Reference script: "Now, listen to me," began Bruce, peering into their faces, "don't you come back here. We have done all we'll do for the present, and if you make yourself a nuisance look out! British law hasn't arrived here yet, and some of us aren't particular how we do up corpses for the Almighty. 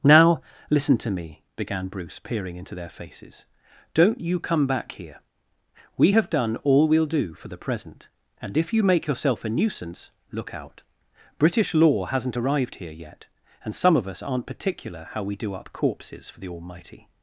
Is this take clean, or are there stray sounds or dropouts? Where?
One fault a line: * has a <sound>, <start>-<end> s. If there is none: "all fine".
all fine